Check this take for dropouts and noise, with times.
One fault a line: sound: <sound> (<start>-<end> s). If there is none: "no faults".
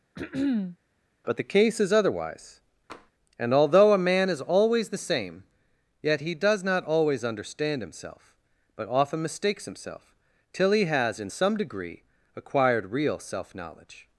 sound: throat clearing (0.2-0.8 s)
sound: tap (2.9-3.1 s)